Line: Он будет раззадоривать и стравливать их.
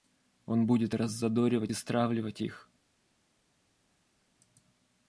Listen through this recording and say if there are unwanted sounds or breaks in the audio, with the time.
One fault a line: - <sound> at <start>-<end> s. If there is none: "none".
none